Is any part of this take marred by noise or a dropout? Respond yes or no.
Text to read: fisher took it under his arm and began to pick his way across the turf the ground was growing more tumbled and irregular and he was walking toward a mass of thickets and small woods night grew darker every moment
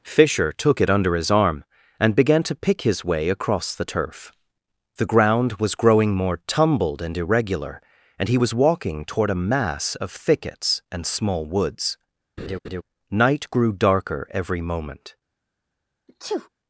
yes